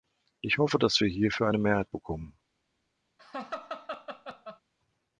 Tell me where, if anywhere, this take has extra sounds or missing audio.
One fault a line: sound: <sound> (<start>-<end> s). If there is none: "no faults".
sound: laugh (3.2-4.6 s)